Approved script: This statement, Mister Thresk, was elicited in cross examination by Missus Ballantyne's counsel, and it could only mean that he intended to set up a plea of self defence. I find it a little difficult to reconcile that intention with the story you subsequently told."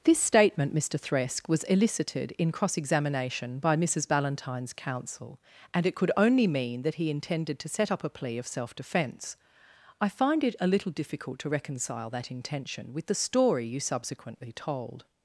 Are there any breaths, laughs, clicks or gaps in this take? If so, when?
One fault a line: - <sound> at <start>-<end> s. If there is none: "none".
none